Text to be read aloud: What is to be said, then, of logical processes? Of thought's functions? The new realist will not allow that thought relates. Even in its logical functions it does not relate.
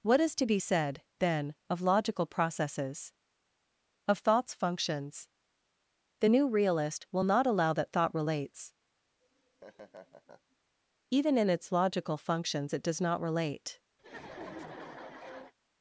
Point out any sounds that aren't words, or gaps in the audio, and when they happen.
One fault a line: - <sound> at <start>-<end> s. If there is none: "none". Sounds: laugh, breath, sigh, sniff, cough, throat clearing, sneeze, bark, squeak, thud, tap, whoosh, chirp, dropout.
- laugh at 9.2-10.6 s
- laugh at 14.0-15.5 s